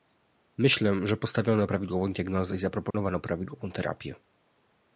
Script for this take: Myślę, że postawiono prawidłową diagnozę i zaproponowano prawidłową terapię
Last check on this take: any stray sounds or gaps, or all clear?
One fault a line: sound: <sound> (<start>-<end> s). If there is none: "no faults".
sound: dropout (2.9-2.9 s)